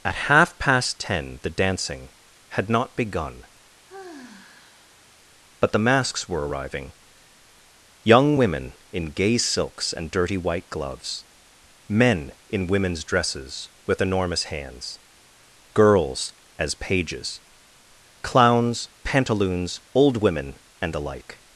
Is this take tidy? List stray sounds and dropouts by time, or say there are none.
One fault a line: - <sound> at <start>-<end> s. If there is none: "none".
- sigh at 3.9-5.2 s